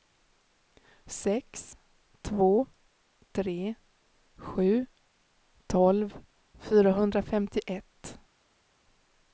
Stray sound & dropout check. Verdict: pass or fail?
pass